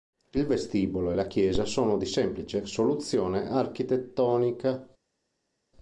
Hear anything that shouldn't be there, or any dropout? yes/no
no